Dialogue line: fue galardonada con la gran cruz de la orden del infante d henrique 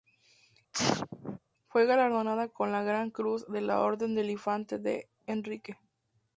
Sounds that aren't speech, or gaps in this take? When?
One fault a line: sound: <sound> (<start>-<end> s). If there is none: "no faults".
sound: sneeze (0.7-1.4 s)